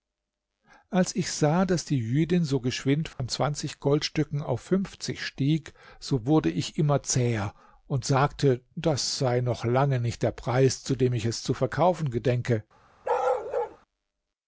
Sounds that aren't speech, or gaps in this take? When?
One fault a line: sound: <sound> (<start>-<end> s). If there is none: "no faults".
sound: dropout (3.1-3.2 s)
sound: bark (13.0-13.8 s)